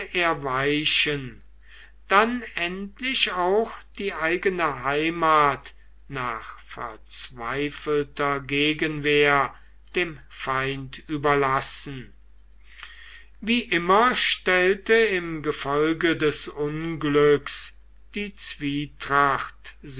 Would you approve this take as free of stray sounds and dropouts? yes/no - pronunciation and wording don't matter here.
yes